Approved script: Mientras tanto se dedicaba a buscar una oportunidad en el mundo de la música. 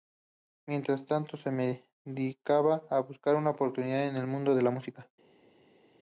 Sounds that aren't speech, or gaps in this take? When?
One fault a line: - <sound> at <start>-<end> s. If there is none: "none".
none